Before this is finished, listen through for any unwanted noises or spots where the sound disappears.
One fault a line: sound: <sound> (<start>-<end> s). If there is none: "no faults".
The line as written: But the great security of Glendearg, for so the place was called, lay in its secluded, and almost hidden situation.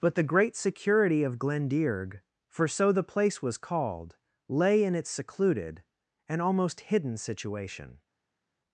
no faults